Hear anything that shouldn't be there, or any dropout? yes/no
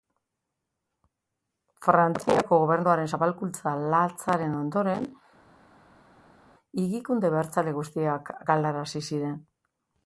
no